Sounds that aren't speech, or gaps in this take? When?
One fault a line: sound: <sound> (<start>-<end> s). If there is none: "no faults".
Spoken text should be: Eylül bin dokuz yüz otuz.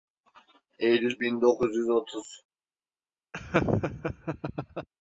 sound: laugh (3.3-4.9 s)